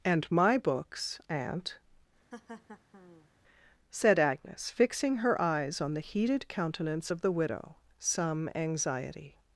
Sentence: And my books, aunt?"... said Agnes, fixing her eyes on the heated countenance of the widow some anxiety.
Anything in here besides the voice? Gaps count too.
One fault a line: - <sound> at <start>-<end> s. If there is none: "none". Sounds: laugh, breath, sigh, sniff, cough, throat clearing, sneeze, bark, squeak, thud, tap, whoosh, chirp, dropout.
- laugh at 2.3-3.3 s